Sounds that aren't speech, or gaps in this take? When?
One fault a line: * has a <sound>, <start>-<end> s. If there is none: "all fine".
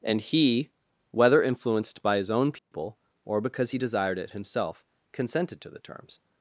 * has a dropout, 2.6-2.7 s